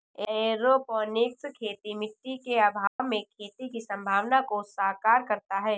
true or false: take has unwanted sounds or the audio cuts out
true